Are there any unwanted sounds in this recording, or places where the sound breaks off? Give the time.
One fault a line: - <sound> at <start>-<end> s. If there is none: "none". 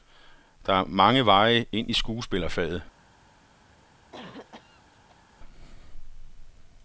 - cough at 4.1-5.2 s